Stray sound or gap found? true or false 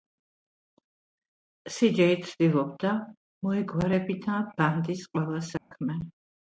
true